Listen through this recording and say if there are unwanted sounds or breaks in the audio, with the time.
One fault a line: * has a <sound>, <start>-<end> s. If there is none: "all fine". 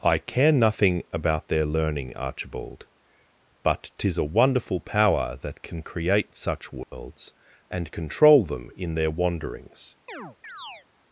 * has a dropout, 6.8-6.9 s
* has a chirp, 10.1-10.9 s